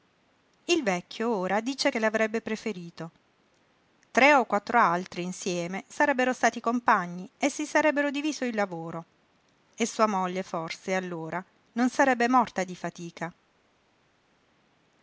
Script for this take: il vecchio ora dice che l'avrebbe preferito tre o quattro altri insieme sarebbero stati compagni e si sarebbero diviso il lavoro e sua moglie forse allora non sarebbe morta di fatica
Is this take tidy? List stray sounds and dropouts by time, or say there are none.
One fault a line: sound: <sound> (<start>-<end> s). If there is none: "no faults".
no faults